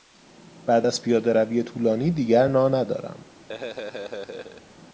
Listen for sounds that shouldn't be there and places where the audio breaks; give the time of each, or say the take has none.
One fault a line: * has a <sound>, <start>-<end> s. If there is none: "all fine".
* has a laugh, 3.5-4.6 s